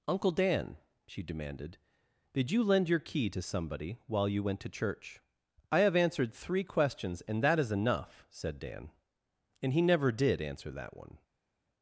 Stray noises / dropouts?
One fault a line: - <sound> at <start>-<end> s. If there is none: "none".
none